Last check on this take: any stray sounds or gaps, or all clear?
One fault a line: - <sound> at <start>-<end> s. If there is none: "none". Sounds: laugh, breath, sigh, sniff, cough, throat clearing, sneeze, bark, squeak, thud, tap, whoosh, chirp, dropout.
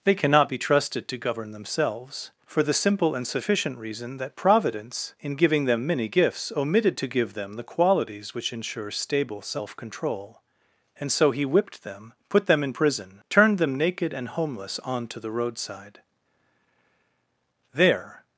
none